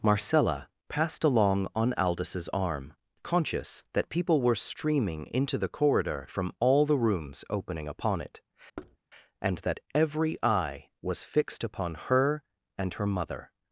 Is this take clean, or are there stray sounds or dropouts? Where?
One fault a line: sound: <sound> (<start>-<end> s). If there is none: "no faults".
sound: thud (8.8-9.0 s)